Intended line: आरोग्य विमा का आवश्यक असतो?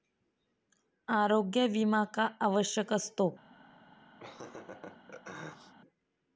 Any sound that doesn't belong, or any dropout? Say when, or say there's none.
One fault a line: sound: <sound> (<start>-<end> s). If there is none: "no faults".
sound: laugh (4.2-5.7 s)